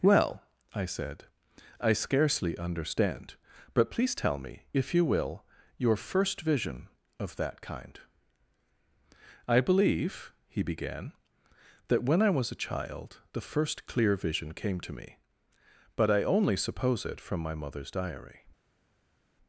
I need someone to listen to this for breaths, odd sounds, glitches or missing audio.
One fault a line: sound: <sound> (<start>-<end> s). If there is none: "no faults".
no faults